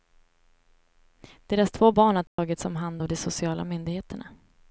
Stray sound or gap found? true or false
true